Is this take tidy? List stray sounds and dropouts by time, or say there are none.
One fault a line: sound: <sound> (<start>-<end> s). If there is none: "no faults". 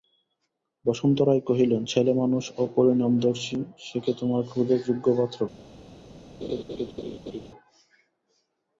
sound: laugh (6.4-7.5 s)